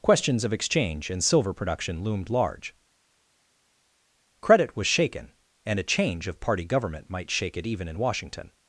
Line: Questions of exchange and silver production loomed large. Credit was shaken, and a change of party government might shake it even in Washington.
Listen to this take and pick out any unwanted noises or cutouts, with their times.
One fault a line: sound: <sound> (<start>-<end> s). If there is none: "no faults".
no faults